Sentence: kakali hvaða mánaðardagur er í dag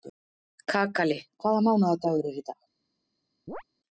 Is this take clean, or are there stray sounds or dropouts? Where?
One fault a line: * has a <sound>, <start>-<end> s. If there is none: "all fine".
* has a chirp, 3.5-3.6 s